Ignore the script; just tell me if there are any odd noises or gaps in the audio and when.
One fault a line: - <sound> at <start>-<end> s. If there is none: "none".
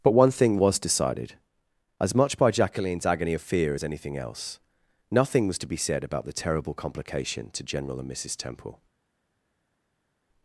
none